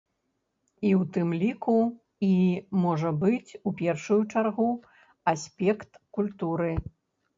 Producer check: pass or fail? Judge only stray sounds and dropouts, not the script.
pass